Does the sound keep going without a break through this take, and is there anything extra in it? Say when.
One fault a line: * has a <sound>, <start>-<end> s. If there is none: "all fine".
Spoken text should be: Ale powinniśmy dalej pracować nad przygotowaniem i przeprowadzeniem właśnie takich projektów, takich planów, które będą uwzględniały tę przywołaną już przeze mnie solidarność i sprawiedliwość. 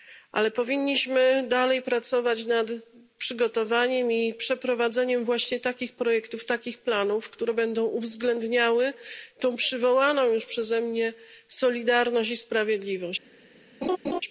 * has a laugh, 13.8-14.2 s